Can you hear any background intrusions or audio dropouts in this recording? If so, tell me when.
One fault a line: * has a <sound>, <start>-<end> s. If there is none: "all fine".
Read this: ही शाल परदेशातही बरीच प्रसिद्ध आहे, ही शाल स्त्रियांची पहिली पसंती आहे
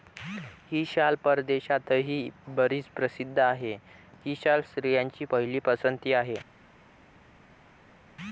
all fine